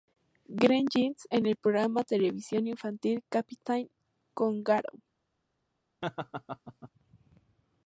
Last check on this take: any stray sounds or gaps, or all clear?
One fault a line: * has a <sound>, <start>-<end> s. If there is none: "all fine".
* has a laugh, 6.0-6.9 s